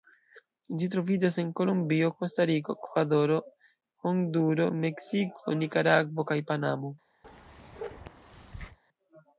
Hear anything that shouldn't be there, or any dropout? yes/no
yes